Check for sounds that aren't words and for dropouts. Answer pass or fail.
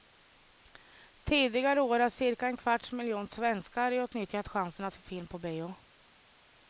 pass